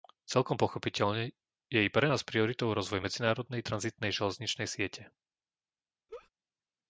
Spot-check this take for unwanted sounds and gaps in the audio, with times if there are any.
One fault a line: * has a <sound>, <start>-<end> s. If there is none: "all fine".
* has a laugh, 6.1-6.3 s